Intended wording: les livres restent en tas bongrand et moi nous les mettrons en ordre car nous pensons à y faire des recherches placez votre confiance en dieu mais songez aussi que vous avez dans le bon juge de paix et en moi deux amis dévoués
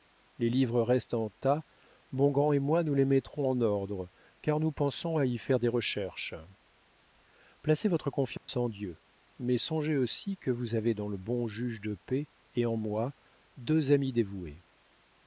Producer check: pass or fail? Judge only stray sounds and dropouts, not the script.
fail